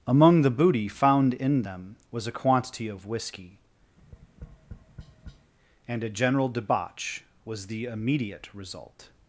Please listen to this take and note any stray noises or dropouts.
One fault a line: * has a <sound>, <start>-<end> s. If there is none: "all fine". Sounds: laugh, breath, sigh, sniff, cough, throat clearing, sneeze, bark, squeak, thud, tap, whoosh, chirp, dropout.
* has a tap, 4.0-5.5 s